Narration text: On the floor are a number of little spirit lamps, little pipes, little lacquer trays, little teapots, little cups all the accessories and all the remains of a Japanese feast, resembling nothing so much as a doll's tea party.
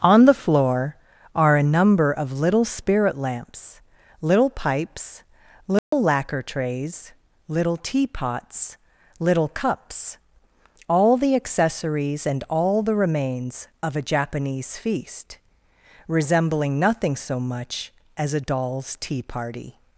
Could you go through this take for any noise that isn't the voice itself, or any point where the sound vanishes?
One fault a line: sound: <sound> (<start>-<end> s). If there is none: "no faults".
sound: dropout (5.8-5.9 s)